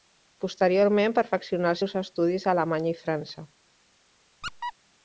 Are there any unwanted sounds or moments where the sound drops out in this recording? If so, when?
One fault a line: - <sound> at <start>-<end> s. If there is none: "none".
- squeak at 4.4-4.7 s